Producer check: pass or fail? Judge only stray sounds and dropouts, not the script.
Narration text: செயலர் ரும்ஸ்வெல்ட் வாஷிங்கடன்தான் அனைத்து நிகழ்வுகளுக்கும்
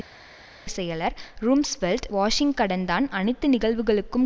pass